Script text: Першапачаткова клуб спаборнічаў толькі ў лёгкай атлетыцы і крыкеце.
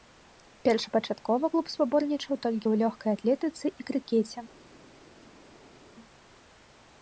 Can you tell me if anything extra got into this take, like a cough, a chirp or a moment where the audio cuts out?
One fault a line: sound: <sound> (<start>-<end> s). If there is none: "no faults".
no faults